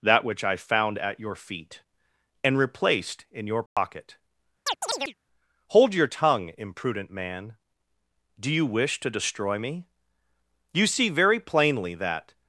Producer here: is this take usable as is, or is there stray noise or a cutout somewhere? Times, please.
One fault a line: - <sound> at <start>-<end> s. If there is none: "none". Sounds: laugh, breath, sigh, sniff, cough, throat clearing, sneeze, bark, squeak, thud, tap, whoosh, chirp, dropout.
- dropout at 3.7-3.8 s
- chirp at 4.7-5.1 s